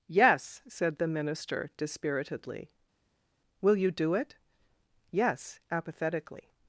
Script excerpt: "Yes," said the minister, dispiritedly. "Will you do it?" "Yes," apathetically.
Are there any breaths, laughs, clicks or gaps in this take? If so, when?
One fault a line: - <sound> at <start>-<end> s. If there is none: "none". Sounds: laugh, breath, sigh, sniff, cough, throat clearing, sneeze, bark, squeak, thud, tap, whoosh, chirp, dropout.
none